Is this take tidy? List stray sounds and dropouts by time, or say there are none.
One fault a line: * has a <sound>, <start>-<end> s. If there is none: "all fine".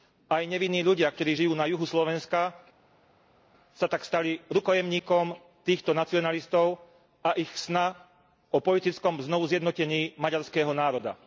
all fine